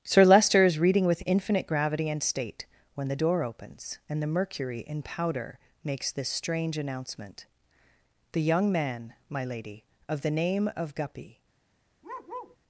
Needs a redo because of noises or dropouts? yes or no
yes